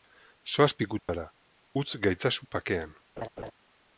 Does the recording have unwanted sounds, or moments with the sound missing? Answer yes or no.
yes